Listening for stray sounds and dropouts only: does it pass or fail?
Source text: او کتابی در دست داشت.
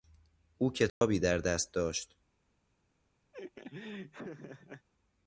fail